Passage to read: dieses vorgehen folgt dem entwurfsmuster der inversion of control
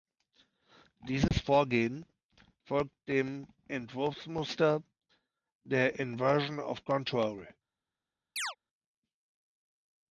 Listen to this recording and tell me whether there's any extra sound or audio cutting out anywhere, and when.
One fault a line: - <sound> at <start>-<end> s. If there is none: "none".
- dropout at 1.3-1.3 s
- chirp at 8.4-8.6 s